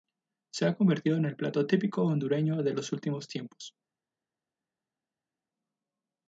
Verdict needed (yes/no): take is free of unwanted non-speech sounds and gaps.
yes